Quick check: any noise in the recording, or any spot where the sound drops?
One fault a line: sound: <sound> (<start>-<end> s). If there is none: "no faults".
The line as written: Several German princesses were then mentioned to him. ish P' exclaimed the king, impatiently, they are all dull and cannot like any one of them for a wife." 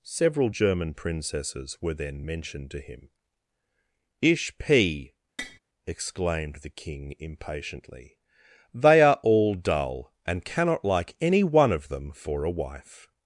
sound: tap (5.4-5.6 s)